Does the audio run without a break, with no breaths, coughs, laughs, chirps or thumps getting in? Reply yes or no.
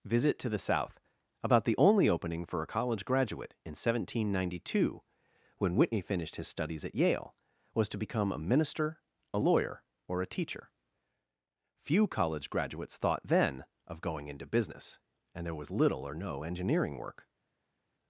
yes